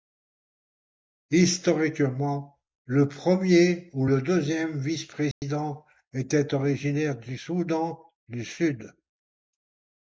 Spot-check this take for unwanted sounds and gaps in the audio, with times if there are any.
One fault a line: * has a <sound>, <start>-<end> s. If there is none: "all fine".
* has a dropout, 5.3-5.4 s